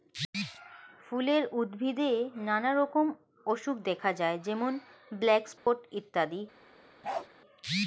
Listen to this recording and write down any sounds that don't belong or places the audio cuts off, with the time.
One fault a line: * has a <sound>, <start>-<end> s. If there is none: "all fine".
* has a dropout, 5.6-5.7 s
* has a bark, 7.0-7.3 s